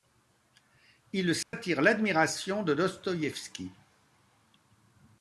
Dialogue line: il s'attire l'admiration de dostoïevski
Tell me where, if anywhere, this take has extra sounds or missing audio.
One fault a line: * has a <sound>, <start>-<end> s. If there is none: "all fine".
* has a dropout, 1.4-1.5 s